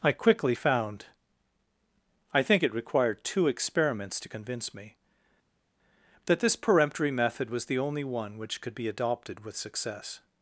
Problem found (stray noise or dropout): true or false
false